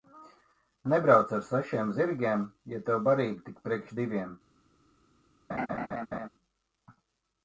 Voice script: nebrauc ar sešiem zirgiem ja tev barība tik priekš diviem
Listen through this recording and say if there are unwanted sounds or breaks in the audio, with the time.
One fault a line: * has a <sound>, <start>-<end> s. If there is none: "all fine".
* has a laugh, 5.5-6.3 s